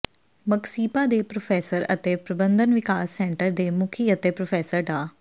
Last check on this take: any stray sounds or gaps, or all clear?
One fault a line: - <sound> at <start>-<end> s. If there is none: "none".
none